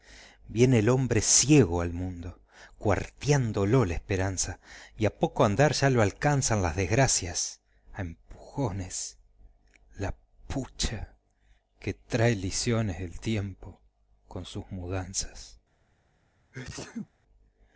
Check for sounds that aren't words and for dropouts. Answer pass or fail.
fail